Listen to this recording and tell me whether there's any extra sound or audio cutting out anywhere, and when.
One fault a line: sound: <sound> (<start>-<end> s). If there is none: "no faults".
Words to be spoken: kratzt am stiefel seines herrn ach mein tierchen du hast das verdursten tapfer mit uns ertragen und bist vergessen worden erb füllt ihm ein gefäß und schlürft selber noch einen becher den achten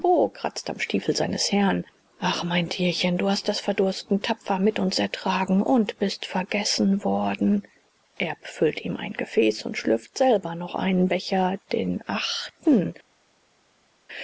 no faults